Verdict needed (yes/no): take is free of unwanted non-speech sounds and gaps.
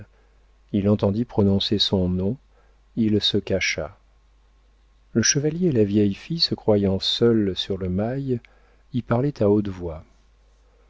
yes